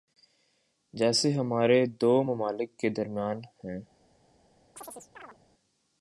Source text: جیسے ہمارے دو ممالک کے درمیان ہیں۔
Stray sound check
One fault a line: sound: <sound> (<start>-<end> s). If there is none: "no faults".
sound: chirp (4.8-5.4 s)